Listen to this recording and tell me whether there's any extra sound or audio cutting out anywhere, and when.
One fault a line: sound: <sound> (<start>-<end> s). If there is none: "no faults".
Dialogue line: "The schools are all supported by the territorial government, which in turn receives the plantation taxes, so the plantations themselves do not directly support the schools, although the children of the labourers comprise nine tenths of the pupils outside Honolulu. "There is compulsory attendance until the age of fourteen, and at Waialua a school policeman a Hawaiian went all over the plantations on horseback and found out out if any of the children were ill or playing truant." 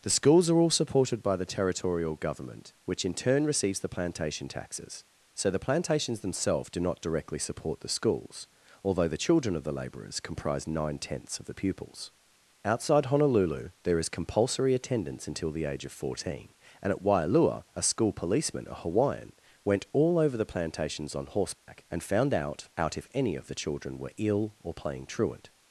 sound: dropout (21.6-21.7 s)